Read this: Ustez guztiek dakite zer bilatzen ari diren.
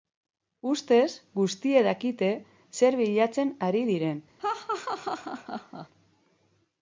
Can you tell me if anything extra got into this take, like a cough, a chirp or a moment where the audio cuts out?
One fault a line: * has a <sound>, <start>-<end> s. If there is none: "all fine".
* has a laugh, 4.4-5.9 s